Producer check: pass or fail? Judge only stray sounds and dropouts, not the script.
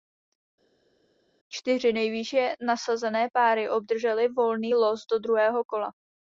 pass